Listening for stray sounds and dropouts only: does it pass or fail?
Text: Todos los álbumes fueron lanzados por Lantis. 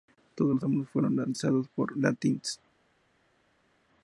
pass